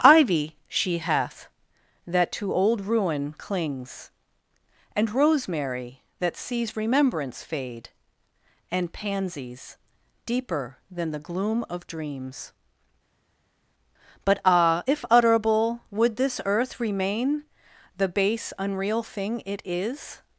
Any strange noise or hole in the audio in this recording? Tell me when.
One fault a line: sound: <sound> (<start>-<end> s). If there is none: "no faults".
no faults